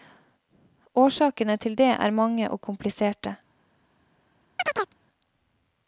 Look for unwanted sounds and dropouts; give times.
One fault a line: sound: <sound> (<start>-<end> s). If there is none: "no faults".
sound: chirp (4.6-4.9 s)